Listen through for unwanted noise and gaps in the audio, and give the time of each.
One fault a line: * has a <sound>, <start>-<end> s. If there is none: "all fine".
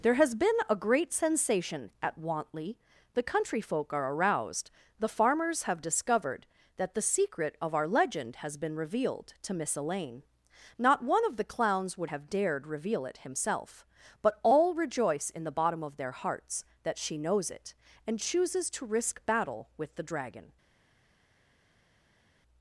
all fine